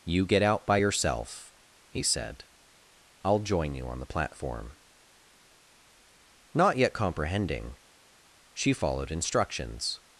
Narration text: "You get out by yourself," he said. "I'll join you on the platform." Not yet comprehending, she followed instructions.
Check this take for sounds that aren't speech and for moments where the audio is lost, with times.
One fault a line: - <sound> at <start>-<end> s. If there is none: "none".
none